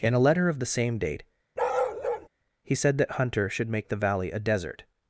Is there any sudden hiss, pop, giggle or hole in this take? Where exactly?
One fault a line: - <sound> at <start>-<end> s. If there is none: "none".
- bark at 1.6-2.3 s